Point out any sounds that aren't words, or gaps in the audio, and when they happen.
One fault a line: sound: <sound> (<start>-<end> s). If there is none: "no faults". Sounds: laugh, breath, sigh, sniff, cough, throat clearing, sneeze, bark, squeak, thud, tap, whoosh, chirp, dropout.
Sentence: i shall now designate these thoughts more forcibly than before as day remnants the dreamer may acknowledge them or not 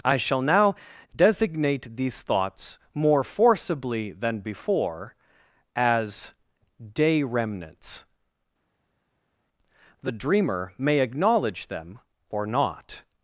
no faults